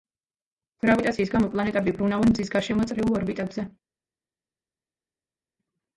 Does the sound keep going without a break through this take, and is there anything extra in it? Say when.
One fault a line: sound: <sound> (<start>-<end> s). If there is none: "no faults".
no faults